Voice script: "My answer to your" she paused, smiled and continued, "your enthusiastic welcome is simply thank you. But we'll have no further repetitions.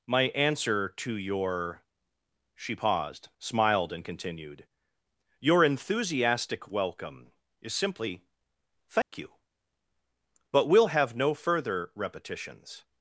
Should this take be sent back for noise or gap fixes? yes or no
yes